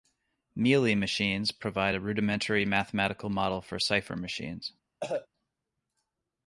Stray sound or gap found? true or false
true